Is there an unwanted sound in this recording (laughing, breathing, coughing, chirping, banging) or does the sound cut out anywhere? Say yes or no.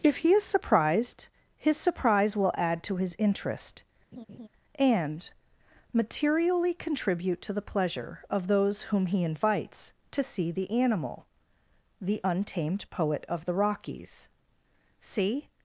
yes